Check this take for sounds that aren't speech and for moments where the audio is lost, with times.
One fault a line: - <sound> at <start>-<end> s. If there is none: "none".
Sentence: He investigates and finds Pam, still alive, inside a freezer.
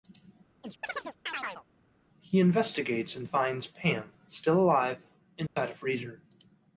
- chirp at 0.6-1.6 s
- dropout at 5.5-5.6 s